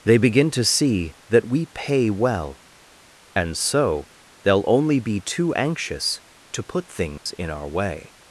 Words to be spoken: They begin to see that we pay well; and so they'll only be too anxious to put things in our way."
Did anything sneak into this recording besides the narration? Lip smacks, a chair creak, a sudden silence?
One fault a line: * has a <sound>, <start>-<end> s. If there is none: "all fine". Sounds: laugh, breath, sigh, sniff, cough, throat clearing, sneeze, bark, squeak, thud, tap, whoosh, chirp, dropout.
* has a dropout, 7.2-7.3 s